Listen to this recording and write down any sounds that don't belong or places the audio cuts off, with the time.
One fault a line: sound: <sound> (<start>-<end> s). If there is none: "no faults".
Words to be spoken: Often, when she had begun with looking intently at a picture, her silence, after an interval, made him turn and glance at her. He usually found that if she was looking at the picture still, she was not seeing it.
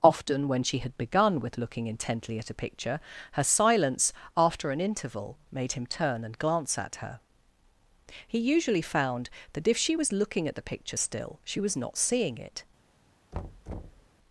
sound: thud (13.3-14.1 s)